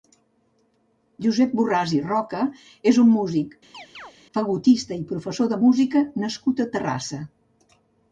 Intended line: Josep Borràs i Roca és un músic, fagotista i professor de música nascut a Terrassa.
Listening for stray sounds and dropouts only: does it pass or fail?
fail